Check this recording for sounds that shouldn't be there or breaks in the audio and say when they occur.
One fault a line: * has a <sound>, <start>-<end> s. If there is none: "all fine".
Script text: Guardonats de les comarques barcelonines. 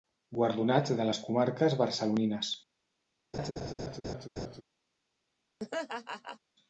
* has a laugh, 3.3-4.6 s
* has a laugh, 5.6-6.4 s